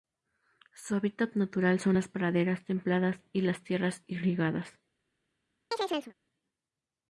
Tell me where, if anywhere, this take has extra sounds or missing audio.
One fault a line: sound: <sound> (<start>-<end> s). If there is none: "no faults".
sound: chirp (5.7-6.1 s)